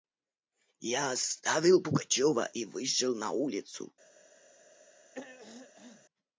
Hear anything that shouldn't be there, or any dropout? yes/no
yes